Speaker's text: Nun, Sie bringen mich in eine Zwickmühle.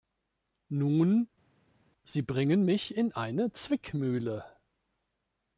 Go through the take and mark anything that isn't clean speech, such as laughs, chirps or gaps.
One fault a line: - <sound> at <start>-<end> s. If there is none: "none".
none